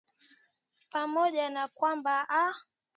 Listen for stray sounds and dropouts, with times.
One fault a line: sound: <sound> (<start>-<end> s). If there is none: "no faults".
no faults